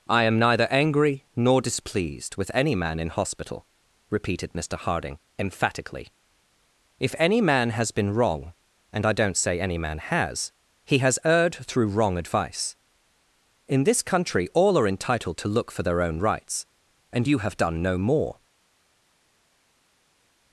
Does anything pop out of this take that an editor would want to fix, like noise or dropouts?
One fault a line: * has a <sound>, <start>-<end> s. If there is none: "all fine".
all fine